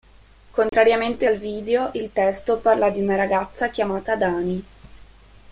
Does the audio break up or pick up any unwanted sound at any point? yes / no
yes